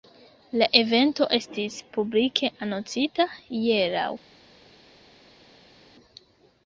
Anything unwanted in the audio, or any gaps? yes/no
no